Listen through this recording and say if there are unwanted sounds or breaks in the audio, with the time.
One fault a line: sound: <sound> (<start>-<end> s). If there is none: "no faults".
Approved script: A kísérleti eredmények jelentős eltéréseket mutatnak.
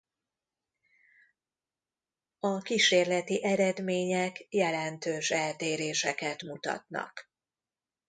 no faults